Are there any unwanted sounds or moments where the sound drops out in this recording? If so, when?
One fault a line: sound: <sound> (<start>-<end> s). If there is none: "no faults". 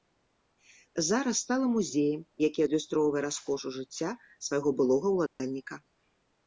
sound: dropout (5.3-5.4 s)